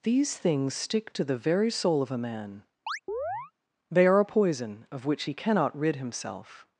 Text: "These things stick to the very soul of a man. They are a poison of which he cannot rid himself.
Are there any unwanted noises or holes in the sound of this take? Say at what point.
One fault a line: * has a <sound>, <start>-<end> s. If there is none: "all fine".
* has a chirp, 2.9-3.5 s